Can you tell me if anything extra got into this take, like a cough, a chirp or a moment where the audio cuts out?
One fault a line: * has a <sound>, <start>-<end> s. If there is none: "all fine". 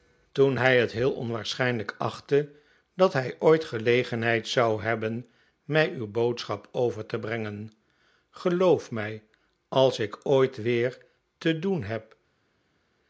all fine